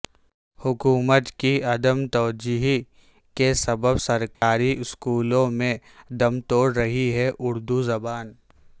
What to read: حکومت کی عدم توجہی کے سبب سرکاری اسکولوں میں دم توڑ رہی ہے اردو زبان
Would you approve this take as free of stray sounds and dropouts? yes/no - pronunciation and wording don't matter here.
no